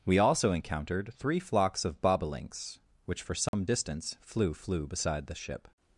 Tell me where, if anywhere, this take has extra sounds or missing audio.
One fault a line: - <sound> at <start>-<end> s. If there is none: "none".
- dropout at 3.5-3.5 s